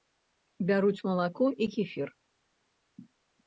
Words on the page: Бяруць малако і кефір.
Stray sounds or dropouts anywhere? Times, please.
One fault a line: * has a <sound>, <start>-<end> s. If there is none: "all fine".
all fine